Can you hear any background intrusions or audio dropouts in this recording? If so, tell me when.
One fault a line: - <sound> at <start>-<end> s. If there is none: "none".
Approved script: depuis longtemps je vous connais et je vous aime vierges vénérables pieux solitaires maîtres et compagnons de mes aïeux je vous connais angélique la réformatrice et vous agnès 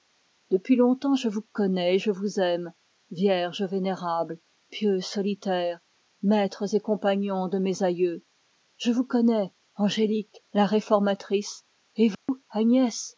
- dropout at 12.1-12.3 s